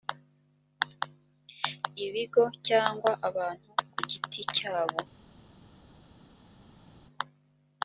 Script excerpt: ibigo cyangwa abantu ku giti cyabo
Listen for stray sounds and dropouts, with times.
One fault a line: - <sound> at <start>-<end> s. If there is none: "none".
none